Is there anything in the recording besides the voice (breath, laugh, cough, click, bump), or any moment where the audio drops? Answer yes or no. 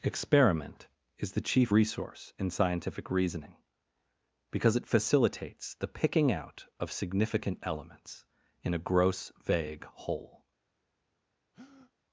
yes